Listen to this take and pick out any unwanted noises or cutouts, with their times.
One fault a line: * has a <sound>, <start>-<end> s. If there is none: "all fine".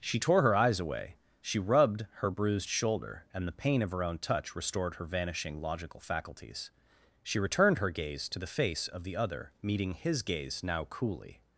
all fine